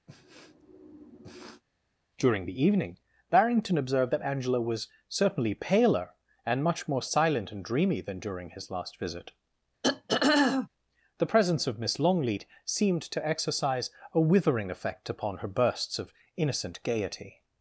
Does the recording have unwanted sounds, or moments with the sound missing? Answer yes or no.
yes